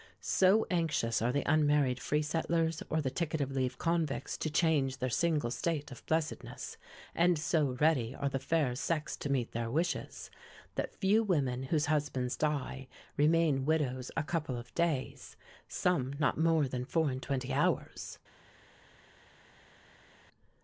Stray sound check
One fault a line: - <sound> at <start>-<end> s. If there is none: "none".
none